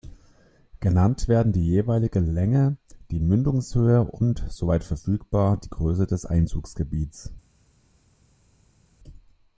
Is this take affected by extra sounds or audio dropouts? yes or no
no